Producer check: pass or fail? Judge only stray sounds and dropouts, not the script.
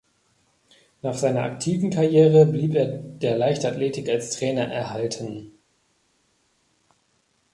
pass